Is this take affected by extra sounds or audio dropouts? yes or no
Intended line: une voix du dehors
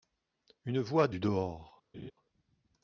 yes